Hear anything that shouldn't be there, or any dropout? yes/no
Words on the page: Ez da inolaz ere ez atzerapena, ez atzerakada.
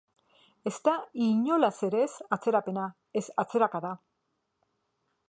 no